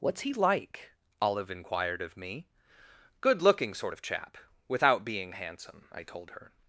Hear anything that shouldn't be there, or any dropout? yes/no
no